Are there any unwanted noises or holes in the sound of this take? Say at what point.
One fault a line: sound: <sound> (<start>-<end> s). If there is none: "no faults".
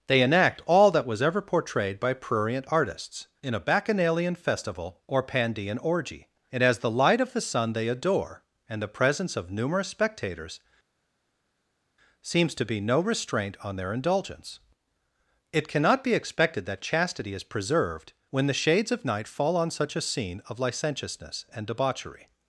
no faults